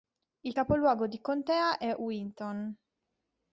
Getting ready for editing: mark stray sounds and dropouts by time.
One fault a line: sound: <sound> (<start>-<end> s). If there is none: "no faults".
no faults